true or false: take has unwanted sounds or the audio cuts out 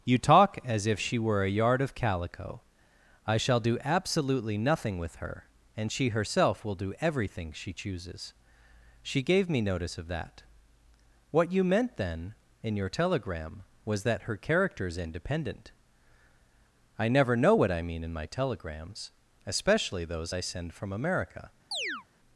true